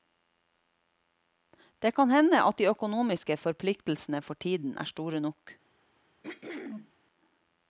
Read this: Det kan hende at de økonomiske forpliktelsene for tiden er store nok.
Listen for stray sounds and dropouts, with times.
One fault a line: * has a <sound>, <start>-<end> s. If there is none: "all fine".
* has a throat clearing, 6.2-6.9 s